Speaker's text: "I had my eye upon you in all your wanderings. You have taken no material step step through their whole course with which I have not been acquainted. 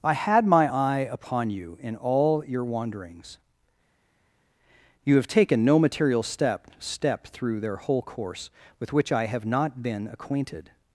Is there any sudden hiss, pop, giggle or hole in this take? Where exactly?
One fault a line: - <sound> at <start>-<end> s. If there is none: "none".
none